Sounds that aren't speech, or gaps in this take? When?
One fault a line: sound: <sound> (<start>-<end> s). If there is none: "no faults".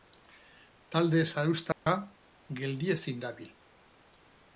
sound: dropout (1.7-1.9 s)